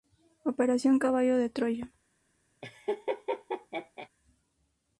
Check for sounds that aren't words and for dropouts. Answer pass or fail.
fail